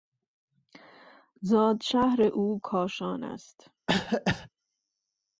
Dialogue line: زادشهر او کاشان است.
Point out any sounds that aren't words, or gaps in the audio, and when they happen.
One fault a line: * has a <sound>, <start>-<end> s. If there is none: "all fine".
* has a cough, 3.9-4.5 s